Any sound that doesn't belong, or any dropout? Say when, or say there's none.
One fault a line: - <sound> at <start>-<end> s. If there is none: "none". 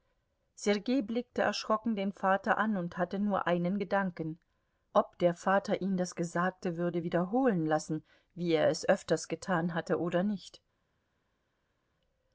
none